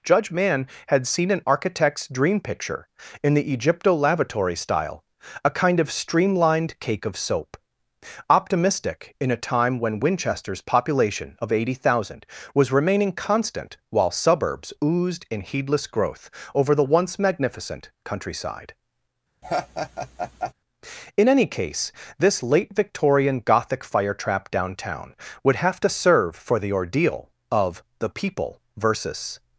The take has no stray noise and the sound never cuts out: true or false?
false